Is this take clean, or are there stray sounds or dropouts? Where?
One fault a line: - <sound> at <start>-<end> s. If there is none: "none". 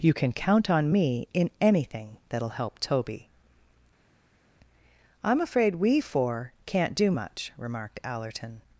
none